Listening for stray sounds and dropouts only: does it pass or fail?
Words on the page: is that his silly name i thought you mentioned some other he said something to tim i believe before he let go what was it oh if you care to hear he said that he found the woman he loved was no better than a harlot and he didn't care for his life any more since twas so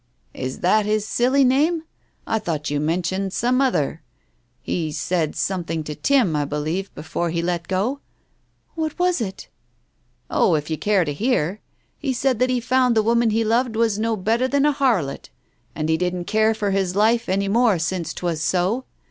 pass